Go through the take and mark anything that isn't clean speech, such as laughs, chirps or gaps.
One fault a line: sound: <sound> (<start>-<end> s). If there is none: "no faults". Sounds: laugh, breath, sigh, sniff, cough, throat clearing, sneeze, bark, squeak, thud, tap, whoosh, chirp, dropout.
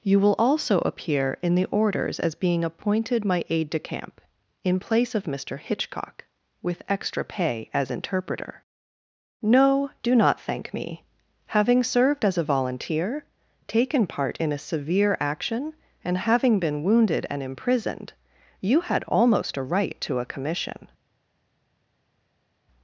no faults